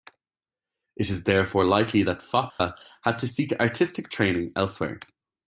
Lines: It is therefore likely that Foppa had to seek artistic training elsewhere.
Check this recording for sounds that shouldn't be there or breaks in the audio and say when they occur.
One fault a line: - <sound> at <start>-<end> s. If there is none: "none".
- dropout at 2.5-2.6 s